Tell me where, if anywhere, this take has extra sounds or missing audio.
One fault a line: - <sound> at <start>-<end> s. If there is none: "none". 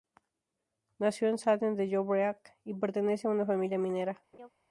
- laugh at 4.3-4.5 s